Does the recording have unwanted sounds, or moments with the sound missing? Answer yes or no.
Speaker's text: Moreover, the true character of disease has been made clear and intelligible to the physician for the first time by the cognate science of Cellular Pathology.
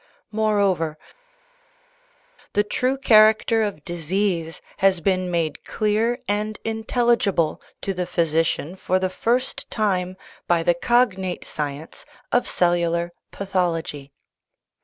no